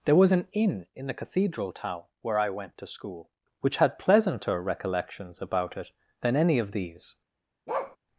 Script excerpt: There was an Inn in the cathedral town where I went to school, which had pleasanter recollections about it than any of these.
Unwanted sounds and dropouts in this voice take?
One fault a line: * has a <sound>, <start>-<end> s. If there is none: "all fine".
* has a bark, 7.7-8.0 s